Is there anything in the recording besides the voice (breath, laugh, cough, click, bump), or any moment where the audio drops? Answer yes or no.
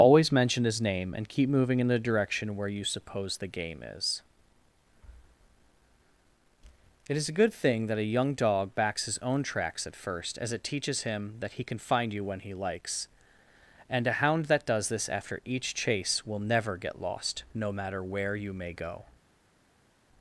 no